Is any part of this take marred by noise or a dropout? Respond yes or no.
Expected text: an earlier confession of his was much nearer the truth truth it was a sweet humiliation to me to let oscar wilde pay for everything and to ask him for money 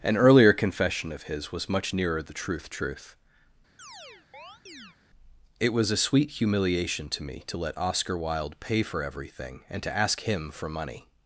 yes